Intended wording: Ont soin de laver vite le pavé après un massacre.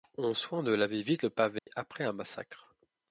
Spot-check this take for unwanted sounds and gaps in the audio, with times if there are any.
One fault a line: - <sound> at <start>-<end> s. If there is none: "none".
- dropout at 1.6-1.7 s